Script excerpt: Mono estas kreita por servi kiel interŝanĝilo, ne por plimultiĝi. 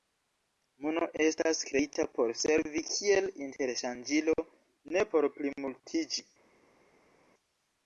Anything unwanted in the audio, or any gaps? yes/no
no